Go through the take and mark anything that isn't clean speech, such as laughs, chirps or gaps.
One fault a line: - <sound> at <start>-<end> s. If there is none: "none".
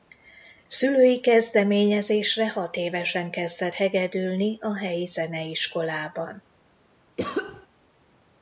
- cough at 7.2-7.7 s